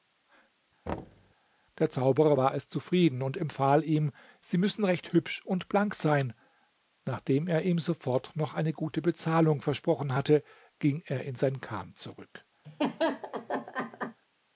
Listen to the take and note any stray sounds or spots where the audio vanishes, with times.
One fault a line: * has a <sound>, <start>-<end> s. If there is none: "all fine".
* has a thud, 0.9-1.3 s
* has a laugh, 12.6-14.2 s